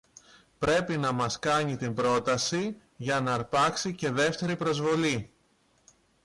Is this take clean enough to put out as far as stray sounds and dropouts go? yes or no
yes